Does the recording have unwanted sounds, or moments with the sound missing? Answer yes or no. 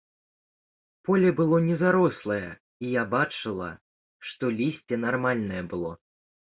no